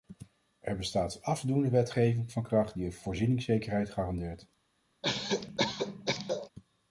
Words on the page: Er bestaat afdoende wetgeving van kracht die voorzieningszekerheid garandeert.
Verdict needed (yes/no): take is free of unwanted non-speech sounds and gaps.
no